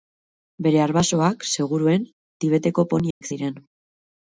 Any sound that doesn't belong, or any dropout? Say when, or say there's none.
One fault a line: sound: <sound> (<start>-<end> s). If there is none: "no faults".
sound: dropout (3.1-3.2 s)